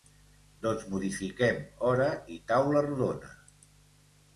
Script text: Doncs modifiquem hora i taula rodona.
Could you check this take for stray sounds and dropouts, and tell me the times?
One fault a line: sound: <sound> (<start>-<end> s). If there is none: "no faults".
no faults